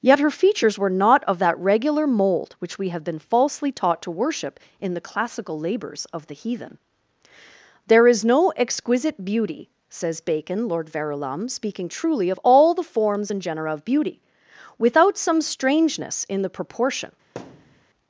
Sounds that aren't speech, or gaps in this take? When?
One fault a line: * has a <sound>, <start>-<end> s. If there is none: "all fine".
* has a thud, 17.4-17.8 s